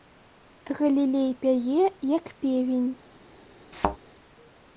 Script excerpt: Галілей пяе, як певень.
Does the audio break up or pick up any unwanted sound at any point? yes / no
yes